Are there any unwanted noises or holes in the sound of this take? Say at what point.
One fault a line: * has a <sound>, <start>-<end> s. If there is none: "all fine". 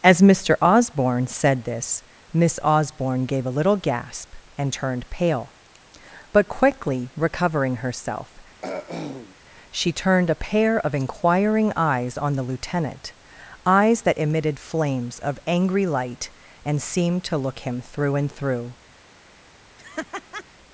* has a throat clearing, 8.6-9.4 s
* has a laugh, 19.8-20.4 s